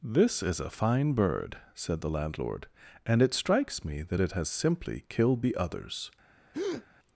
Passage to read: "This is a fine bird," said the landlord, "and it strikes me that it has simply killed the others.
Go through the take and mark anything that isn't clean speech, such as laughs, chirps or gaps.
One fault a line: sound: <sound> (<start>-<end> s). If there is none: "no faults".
sound: breath (6.5-6.9 s)